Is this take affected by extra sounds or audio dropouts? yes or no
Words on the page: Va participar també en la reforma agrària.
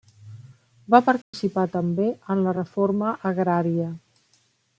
yes